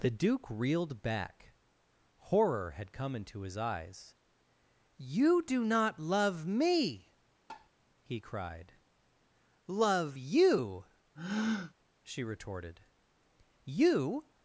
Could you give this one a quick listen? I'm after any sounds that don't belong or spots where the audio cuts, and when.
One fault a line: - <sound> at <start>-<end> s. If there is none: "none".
- tap at 7.5-7.7 s
- breath at 11.2-11.7 s